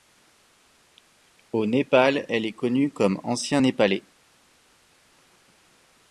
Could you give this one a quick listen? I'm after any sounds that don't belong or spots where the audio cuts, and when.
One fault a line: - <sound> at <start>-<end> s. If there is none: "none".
none